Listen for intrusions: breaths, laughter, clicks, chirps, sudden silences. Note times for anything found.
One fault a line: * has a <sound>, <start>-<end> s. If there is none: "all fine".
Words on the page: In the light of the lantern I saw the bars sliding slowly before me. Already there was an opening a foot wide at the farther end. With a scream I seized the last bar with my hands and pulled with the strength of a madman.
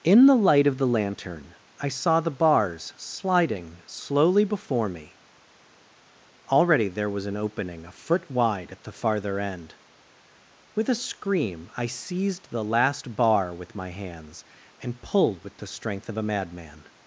all fine